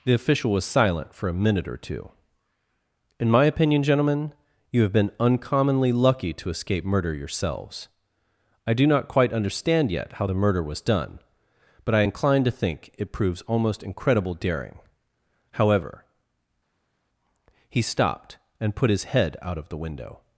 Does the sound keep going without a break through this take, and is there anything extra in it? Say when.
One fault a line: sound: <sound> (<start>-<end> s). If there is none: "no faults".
no faults